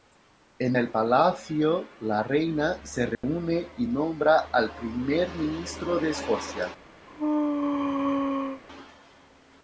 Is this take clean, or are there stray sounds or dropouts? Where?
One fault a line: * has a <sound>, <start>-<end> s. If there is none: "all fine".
* has a dropout, 3.1-3.2 s
* has a sneeze, 7.1-8.6 s